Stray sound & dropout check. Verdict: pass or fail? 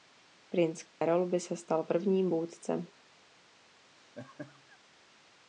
fail